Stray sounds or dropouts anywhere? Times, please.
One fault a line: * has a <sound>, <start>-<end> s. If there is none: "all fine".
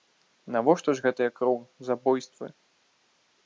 all fine